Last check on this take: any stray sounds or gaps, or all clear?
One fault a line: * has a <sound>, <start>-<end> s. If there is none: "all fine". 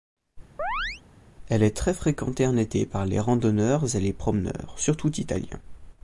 * has a chirp, 0.6-1.0 s